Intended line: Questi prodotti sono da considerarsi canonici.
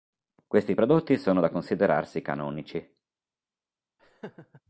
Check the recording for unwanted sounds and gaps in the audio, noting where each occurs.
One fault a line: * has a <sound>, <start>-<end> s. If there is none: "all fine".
* has a laugh, 4.0-4.6 s